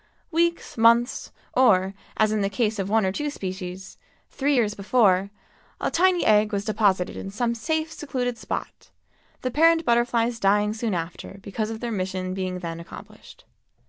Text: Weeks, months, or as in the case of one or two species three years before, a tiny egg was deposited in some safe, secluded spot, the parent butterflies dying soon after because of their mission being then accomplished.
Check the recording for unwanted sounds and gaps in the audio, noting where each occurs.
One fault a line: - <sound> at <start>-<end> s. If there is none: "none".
none